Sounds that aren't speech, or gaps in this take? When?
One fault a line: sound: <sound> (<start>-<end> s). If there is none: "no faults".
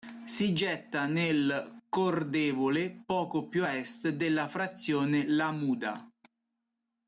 no faults